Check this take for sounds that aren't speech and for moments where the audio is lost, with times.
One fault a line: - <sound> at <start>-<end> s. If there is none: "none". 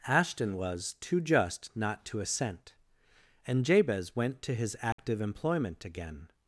- dropout at 4.9-5.0 s